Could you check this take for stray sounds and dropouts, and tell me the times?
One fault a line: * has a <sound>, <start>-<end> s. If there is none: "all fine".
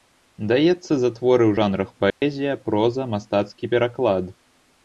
* has a dropout, 2.1-2.2 s